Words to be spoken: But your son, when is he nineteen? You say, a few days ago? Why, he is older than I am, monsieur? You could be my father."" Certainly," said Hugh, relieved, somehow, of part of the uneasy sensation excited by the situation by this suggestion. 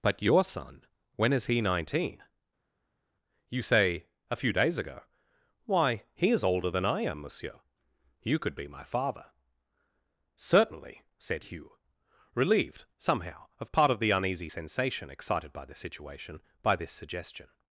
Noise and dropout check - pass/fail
pass